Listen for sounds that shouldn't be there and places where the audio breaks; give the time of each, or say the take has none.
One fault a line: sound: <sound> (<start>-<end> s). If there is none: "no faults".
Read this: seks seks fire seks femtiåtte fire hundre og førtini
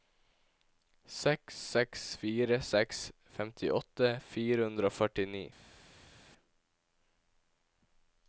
no faults